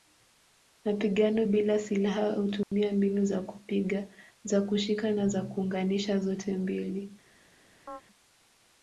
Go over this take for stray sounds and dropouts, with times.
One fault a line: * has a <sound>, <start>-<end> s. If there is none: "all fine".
* has a dropout, 2.6-2.7 s
* has a chirp, 7.9-8.0 s